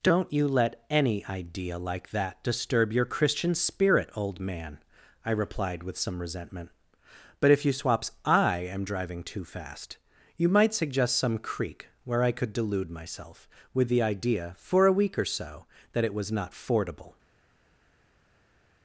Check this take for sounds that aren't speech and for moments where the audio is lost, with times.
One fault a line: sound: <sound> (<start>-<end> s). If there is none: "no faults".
no faults